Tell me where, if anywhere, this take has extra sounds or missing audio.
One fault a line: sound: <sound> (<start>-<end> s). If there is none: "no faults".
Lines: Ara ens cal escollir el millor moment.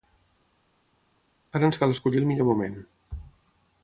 no faults